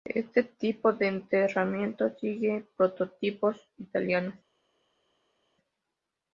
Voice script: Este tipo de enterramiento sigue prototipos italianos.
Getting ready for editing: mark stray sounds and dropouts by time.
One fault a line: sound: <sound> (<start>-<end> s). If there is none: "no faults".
no faults